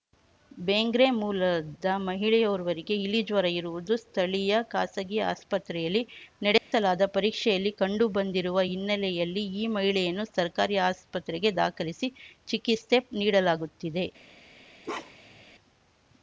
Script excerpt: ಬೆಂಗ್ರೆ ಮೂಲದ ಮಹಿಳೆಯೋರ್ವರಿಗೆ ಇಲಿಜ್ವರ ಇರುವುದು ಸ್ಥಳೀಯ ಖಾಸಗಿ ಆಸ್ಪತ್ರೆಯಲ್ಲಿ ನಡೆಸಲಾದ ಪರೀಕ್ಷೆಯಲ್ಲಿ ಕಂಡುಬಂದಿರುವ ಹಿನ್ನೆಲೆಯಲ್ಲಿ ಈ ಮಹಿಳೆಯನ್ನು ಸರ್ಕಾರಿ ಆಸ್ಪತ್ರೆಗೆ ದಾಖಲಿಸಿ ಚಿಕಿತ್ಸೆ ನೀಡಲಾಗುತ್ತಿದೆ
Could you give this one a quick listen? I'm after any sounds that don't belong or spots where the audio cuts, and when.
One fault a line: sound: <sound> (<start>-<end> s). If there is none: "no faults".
sound: dropout (6.6-6.7 s)
sound: bark (14.8-15.4 s)